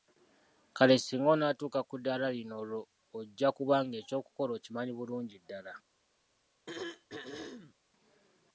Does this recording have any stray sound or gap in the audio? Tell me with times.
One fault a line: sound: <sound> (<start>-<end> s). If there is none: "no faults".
sound: throat clearing (6.7-7.7 s)